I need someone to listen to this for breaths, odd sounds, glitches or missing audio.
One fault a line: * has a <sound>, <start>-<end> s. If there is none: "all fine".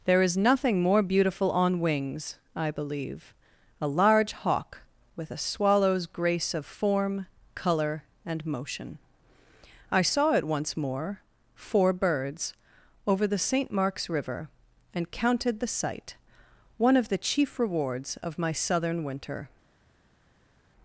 all fine